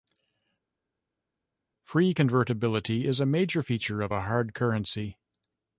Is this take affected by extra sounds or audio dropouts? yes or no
no